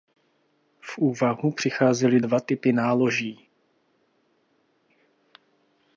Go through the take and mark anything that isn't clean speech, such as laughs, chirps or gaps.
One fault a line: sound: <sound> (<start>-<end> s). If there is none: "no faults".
no faults